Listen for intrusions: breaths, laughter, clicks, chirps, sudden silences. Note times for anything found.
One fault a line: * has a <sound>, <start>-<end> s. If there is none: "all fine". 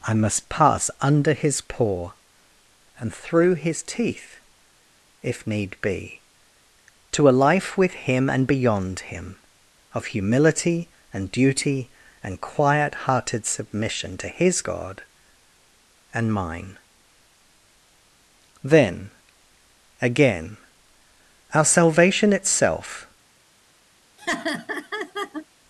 * has a laugh, 24.2-25.5 s